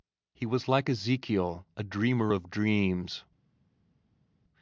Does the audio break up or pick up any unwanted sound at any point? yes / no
no